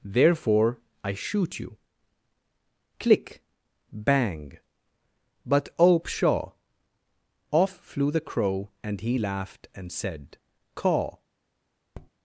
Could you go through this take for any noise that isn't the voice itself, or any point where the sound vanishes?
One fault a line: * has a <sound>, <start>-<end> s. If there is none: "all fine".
* has a tap, 11.9-12.1 s